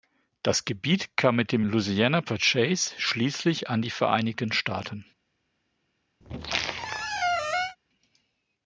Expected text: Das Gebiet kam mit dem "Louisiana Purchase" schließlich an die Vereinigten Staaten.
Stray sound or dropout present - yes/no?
yes